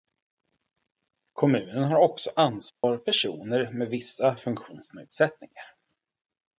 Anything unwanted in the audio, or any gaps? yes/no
yes